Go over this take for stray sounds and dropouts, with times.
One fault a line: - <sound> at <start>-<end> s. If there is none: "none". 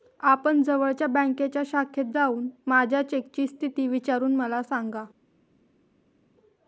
none